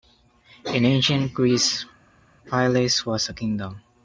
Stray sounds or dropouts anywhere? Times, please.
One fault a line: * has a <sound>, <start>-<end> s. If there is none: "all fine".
all fine